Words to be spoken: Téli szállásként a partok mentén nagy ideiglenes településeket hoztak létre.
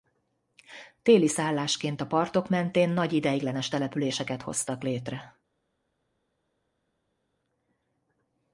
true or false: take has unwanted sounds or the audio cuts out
false